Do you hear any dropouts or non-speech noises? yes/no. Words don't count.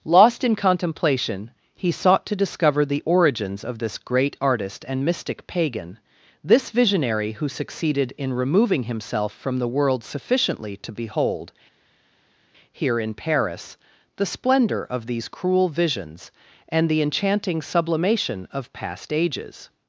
no